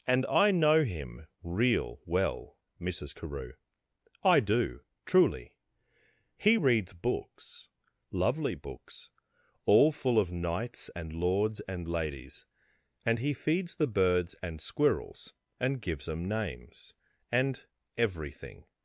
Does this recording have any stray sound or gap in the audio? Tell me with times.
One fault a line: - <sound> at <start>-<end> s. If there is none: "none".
none